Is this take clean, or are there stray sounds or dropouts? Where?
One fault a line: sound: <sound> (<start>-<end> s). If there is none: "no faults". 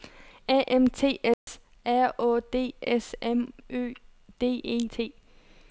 sound: dropout (1.3-1.5 s)